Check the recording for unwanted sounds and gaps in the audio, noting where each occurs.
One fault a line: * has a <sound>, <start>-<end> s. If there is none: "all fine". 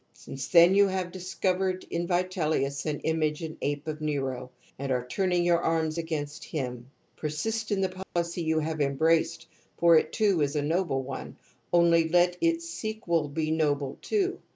* has a dropout, 8.0-8.2 s